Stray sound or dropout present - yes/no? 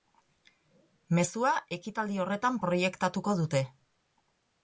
no